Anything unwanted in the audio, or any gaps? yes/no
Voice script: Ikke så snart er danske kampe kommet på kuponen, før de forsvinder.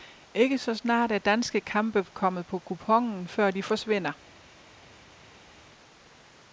no